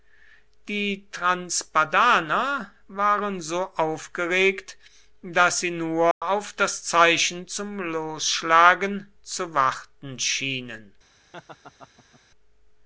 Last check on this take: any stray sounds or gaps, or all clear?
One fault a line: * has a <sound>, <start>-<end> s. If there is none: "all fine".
* has a dropout, 6.1-6.2 s
* has a laugh, 11.3-12.2 s